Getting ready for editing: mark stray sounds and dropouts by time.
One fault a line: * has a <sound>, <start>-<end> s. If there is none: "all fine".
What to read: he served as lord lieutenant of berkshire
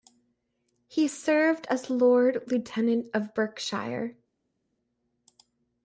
all fine